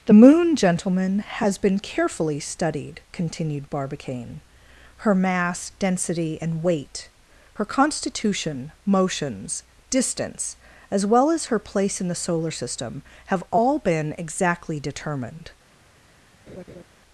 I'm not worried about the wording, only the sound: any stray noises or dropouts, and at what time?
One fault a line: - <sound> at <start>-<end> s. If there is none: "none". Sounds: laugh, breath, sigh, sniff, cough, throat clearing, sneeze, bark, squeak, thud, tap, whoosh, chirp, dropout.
- laugh at 16.5-16.8 s